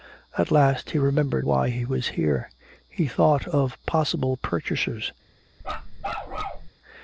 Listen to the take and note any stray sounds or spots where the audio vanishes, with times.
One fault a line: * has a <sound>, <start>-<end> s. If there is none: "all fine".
* has a bark, 5.6-6.7 s